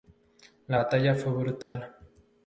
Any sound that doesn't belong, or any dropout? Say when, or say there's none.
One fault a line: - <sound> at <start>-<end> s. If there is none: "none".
- dropout at 1.6-1.8 s